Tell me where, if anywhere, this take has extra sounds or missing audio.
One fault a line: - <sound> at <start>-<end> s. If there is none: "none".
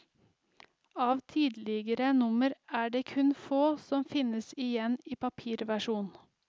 none